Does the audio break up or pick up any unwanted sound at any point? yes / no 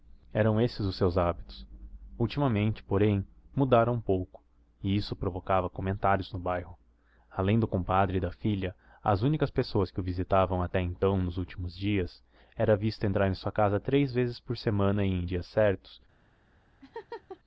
yes